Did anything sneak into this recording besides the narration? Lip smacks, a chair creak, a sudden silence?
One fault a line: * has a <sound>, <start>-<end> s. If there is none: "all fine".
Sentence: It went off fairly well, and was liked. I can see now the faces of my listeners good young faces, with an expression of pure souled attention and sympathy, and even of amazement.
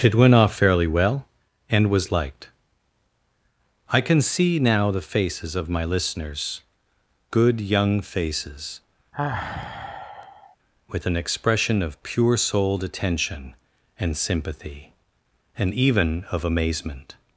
* has a sigh, 9.1-10.6 s